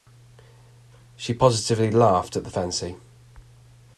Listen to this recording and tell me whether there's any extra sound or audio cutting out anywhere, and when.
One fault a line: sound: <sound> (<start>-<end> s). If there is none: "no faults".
no faults